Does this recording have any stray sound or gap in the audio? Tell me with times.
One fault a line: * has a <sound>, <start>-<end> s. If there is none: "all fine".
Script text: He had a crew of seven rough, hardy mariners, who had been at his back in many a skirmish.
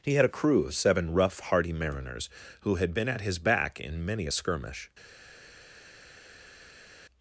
all fine